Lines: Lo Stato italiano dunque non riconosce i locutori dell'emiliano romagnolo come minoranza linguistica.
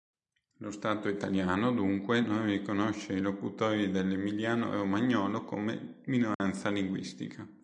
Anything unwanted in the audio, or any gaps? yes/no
yes